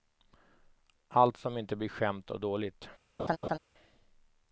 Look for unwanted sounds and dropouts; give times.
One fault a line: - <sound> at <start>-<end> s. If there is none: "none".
- laugh at 3.2-3.6 s